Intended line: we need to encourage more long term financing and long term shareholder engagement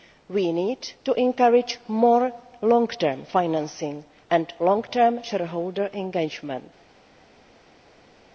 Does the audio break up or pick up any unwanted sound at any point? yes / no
no